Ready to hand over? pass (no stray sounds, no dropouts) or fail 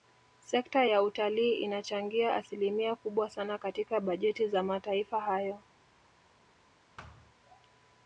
fail